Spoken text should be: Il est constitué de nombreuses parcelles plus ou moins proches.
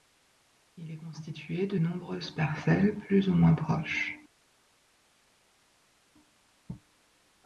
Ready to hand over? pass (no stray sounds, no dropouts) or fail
pass